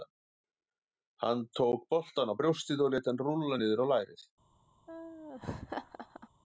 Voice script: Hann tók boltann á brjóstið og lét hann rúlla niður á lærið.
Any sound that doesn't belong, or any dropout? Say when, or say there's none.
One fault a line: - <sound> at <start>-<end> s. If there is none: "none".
- laugh at 4.9-6.3 s